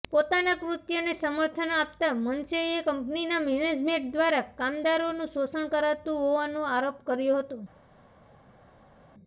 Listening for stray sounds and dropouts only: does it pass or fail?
pass